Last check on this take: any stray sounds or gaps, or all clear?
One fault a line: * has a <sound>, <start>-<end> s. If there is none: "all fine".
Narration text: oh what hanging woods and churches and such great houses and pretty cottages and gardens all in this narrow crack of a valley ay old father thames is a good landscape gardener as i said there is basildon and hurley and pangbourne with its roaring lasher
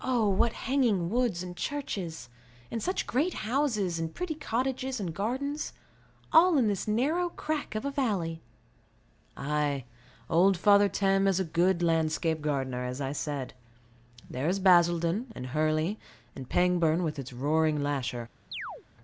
* has a chirp, 18.5-18.8 s